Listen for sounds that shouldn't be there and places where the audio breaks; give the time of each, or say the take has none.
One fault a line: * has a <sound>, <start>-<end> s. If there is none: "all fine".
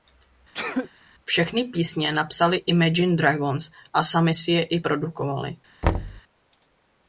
* has a sneeze, 0.5-0.9 s
* has a thud, 5.8-6.2 s